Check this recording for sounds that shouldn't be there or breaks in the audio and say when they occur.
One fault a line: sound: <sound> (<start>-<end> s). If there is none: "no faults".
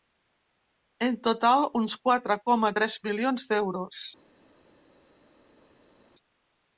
no faults